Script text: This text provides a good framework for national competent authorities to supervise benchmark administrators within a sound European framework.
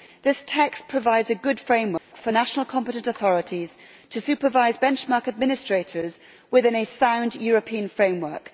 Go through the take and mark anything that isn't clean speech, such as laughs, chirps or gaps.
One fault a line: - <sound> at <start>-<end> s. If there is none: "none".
- dropout at 2.0-2.1 s